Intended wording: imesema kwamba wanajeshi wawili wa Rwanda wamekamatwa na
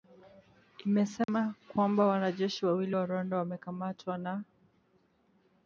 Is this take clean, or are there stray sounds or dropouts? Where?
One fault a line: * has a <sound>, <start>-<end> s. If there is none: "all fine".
* has a dropout, 1.2-1.3 s